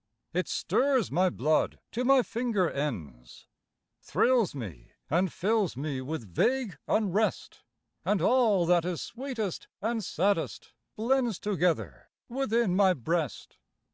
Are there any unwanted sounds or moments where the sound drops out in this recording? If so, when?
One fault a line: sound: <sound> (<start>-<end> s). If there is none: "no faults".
no faults